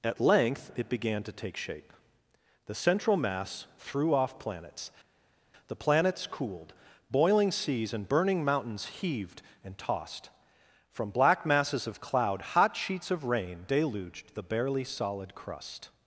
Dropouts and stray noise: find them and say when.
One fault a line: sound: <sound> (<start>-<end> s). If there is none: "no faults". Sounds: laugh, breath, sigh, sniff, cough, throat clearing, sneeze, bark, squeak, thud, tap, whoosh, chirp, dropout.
no faults